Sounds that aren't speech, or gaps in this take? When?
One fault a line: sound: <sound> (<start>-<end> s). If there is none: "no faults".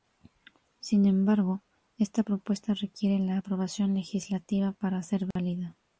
sound: dropout (5.3-5.4 s)